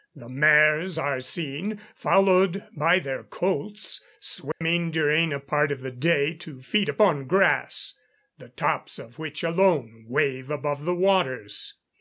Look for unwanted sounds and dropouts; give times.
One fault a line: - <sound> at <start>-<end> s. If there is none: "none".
- dropout at 4.5-4.6 s